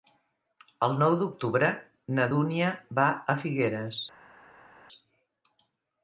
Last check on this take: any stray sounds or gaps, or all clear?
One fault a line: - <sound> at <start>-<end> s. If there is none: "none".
none